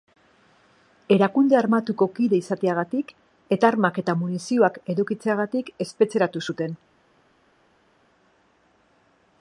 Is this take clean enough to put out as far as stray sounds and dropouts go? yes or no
yes